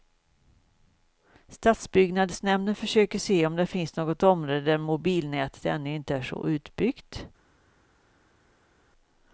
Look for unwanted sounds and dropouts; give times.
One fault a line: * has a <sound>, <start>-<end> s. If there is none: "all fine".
all fine